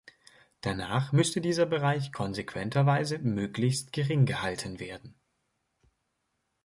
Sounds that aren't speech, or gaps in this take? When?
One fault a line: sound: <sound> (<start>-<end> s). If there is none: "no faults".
no faults